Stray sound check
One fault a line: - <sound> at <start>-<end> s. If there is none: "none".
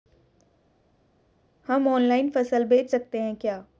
none